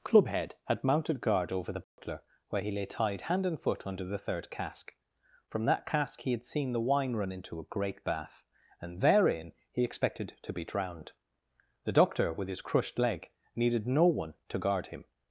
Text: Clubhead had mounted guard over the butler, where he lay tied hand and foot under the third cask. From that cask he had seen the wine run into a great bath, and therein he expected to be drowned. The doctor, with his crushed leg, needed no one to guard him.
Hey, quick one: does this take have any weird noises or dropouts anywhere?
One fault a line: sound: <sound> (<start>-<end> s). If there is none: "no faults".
sound: dropout (1.8-2.0 s)